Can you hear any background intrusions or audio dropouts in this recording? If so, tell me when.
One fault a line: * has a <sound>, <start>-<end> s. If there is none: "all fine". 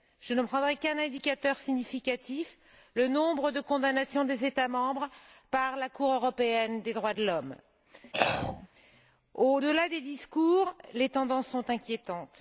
* has a throat clearing, 8.1-8.7 s